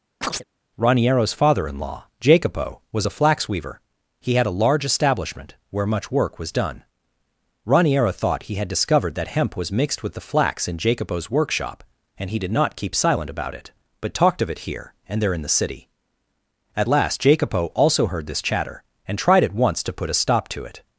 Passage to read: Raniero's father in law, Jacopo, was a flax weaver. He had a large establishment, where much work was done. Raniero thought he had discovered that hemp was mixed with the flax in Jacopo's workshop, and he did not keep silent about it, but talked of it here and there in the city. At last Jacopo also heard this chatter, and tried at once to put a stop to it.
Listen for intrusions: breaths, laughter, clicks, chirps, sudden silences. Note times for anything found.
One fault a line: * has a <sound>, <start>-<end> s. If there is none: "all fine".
* has a chirp, 0.2-0.4 s